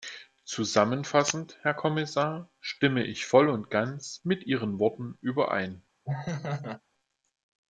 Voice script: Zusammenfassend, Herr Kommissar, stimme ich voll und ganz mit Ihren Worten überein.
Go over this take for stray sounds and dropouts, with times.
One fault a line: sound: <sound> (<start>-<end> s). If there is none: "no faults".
sound: laugh (6.0-6.8 s)